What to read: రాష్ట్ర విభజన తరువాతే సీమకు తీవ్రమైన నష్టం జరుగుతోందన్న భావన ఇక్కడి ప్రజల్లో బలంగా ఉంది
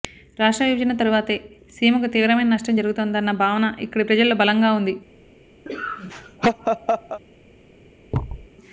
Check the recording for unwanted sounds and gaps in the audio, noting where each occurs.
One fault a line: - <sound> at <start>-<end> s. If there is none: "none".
- laugh at 5.7-7.2 s
- thud at 8.1-8.5 s